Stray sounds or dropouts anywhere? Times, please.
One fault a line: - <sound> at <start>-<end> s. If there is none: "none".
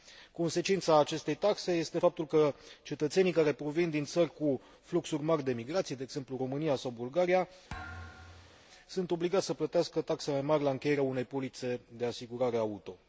- thud at 7.7-8.7 s